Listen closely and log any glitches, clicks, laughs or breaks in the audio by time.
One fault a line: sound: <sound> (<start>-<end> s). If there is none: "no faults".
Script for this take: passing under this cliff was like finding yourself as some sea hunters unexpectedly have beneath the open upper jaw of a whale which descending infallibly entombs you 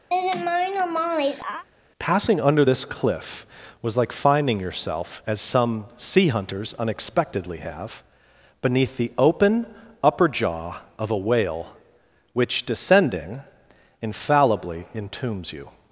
sound: laugh (0.1-1.6 s)